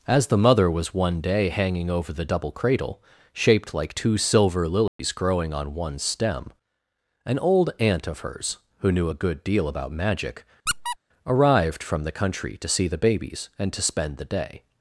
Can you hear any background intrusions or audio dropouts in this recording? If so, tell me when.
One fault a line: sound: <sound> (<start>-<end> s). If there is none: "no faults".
sound: dropout (4.9-5.0 s)
sound: squeak (10.7-11.0 s)